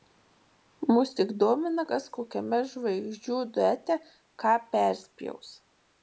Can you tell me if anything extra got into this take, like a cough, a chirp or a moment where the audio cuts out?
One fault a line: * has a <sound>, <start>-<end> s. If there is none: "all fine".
all fine